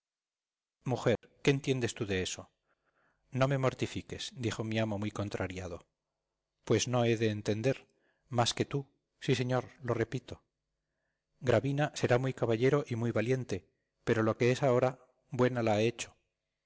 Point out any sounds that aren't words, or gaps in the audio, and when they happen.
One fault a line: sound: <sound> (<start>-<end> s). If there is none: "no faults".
sound: dropout (1.2-1.2 s)